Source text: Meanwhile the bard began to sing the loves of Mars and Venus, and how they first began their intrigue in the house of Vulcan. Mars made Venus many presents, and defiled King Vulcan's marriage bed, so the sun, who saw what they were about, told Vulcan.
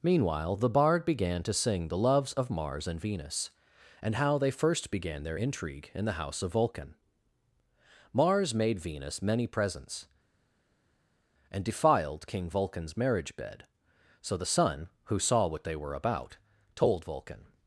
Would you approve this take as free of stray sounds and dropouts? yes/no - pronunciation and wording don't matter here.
yes